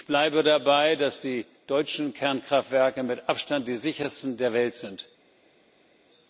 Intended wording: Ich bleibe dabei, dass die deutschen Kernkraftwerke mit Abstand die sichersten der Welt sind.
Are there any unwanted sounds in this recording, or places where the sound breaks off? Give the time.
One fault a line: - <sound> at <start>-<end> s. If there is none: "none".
none